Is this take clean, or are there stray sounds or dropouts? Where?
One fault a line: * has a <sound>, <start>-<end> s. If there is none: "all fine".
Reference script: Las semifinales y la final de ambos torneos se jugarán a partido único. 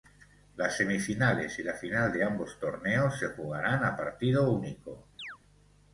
* has a chirp, 5.2-5.4 s